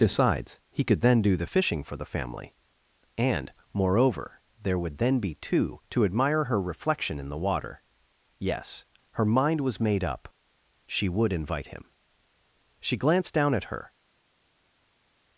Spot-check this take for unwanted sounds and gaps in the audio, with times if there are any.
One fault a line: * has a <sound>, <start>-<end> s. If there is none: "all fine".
all fine